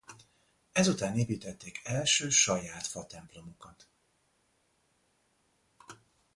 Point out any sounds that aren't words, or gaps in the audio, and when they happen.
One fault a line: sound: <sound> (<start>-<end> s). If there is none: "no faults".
no faults